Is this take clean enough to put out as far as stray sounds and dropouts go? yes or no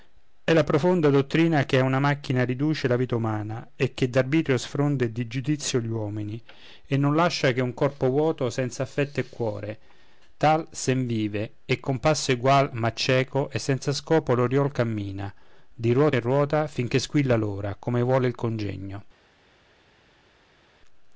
yes